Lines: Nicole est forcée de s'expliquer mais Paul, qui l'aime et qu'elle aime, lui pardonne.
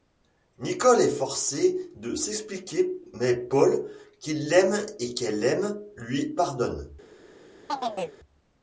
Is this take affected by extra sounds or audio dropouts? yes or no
yes